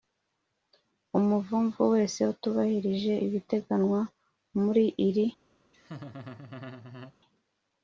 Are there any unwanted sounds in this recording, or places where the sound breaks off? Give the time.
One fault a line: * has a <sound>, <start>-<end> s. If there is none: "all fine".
* has a laugh, 5.7-7.1 s